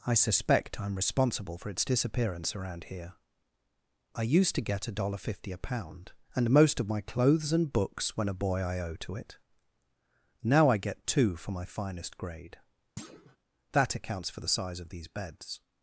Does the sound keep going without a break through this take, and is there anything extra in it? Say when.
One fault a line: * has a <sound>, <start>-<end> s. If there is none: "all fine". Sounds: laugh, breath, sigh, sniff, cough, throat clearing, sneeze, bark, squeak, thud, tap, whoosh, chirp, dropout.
* has a thud, 13.0-13.4 s